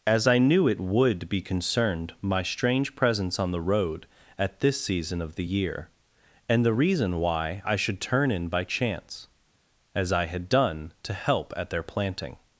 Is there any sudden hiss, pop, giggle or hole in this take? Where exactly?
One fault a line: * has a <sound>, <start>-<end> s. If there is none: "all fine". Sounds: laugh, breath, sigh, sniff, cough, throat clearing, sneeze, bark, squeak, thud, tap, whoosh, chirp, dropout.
all fine